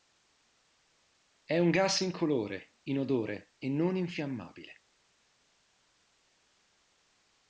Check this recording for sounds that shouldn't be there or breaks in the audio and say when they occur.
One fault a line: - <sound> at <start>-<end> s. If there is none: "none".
none